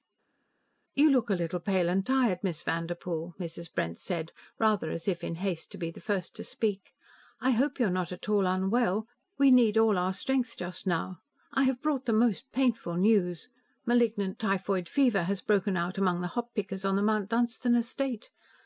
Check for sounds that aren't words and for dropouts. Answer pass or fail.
pass